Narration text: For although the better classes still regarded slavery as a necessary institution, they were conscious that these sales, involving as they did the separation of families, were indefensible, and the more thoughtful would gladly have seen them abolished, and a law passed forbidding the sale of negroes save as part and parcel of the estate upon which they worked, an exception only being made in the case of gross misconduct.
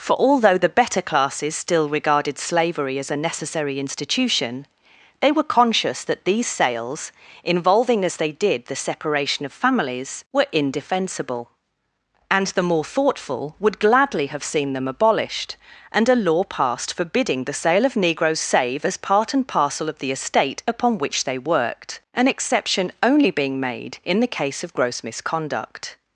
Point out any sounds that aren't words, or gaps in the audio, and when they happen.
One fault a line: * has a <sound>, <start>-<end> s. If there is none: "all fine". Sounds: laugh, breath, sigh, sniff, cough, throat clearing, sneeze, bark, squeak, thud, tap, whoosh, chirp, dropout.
all fine